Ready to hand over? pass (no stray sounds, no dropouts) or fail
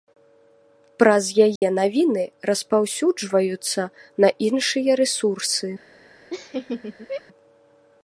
fail